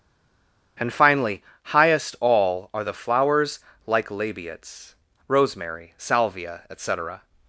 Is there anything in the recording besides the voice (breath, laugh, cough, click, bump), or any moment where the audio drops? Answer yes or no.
no